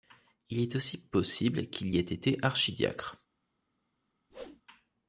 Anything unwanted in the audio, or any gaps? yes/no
yes